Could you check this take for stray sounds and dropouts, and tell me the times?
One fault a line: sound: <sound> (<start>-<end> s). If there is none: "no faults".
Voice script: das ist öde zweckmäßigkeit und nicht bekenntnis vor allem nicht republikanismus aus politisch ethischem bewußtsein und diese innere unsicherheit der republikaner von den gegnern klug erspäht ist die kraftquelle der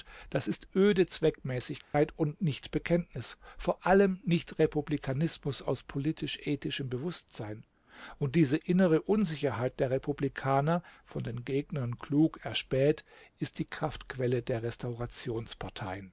sound: dropout (1.8-1.9 s)